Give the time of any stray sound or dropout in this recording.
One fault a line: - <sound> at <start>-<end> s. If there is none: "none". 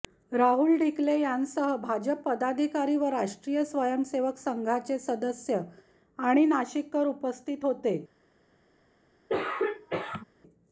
- throat clearing at 9.3-10.2 s